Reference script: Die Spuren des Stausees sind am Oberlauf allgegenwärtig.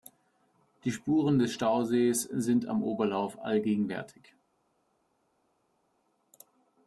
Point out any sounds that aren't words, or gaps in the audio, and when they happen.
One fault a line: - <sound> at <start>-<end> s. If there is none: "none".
none